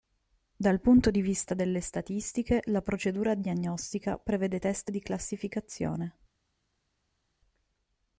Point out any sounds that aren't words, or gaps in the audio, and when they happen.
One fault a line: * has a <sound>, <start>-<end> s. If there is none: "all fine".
all fine